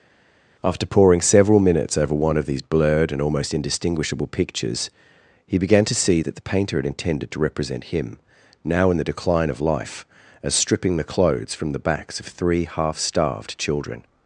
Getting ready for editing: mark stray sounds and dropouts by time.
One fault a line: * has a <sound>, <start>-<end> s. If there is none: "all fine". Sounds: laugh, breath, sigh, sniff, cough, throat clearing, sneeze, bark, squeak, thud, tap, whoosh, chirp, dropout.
all fine